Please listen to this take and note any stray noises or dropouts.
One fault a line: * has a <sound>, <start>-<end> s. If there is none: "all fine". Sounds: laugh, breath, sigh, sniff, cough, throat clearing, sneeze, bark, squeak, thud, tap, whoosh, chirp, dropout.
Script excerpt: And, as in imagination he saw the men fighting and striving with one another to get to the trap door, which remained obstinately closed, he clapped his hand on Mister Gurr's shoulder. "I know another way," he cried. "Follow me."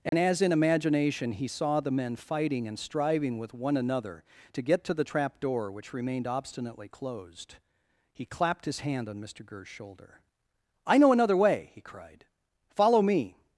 * has a dropout, 0.1-0.1 s